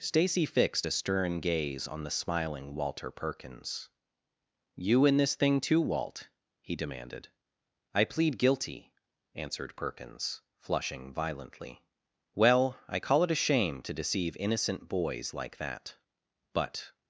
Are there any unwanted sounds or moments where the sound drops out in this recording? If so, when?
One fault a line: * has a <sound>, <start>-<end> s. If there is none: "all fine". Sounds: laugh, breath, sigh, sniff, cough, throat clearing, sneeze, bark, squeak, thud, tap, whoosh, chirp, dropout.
all fine